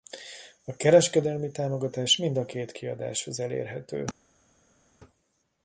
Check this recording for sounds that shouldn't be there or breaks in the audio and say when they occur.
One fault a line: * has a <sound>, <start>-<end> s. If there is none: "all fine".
all fine